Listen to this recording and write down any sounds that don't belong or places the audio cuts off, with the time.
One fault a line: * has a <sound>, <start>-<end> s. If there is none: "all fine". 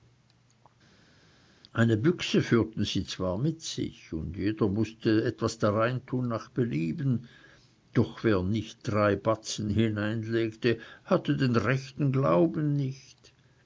all fine